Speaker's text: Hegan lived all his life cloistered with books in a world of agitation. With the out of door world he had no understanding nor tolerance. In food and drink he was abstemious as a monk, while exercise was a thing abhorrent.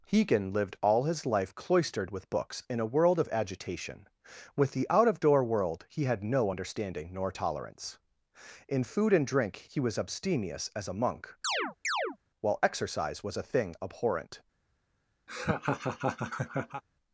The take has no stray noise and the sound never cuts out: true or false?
false